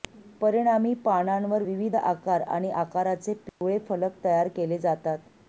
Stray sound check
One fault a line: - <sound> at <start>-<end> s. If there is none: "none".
- dropout at 3.5-3.6 s